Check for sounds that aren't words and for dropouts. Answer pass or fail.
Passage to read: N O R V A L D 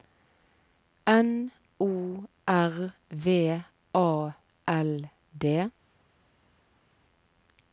pass